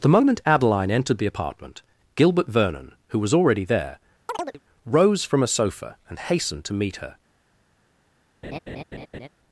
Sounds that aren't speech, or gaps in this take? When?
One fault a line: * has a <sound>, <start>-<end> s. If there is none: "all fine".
* has a chirp, 4.3-4.6 s
* has a laugh, 8.4-9.3 s